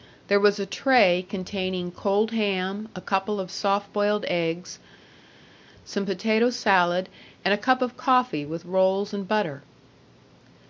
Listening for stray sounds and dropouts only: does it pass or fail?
pass